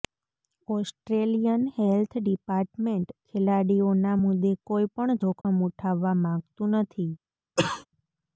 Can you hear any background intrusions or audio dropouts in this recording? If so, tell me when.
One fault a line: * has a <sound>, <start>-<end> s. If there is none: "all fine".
* has a dropout, 5.4-5.4 s
* has a cough, 7.6-7.9 s